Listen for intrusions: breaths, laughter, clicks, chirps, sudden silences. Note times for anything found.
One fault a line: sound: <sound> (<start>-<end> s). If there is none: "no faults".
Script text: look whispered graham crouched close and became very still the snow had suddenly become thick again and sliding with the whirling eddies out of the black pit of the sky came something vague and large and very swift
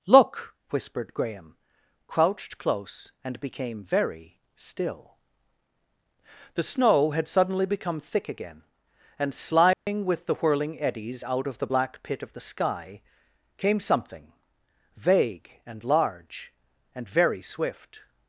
sound: dropout (9.7-9.9 s)